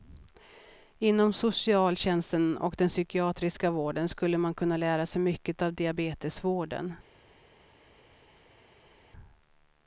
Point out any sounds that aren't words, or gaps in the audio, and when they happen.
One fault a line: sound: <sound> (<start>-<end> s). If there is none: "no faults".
no faults